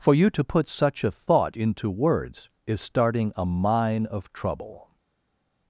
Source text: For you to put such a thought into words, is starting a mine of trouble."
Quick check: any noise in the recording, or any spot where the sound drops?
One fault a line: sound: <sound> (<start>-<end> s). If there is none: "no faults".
no faults